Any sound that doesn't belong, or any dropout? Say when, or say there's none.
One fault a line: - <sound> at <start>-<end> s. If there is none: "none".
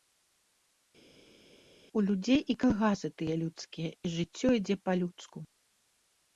none